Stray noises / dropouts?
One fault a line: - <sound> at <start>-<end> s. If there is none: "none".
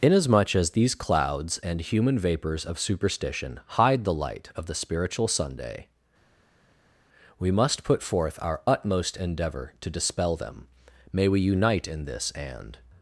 none